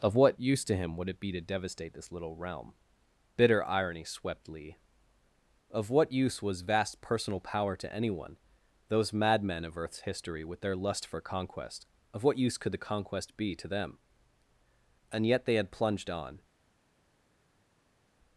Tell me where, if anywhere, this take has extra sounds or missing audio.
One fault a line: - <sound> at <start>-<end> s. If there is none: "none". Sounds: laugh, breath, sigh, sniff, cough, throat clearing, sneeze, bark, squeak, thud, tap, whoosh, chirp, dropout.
none